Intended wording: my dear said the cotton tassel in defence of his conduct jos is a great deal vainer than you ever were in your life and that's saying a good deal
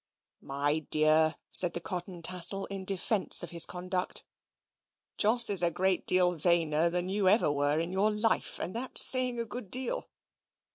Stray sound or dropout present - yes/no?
no